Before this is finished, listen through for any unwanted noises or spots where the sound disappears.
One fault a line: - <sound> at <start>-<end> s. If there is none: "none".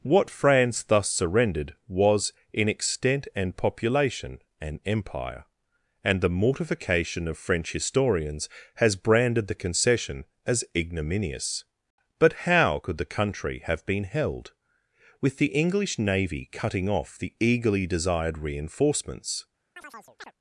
- chirp at 19.8-20.3 s